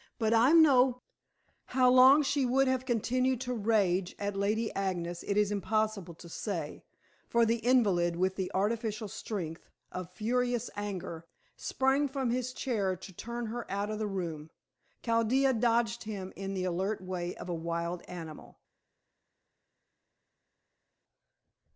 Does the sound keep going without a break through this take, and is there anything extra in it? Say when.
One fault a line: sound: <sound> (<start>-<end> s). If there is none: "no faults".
no faults